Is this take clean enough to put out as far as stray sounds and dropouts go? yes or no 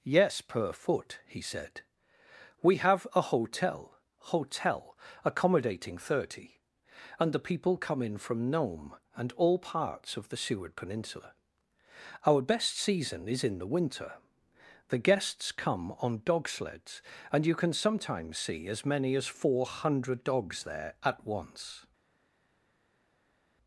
yes